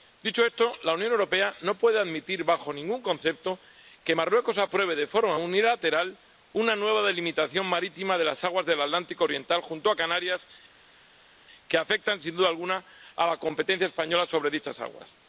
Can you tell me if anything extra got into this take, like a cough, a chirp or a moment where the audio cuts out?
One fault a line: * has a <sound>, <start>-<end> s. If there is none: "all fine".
all fine